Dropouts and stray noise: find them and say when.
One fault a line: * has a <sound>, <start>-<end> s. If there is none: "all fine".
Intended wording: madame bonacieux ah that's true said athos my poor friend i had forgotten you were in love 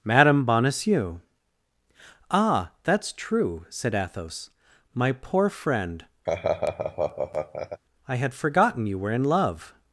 * has a laugh, 6.3-7.8 s